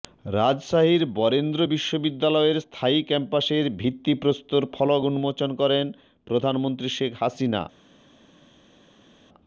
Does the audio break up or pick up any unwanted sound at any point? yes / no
no